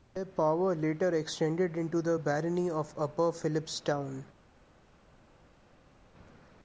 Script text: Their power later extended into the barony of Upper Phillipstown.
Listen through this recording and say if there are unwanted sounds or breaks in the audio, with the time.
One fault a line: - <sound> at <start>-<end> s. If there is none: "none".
none